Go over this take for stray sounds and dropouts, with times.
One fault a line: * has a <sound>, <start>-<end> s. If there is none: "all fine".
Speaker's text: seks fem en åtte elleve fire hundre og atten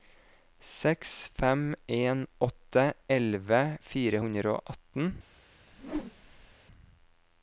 * has a whoosh, 5.7-6.6 s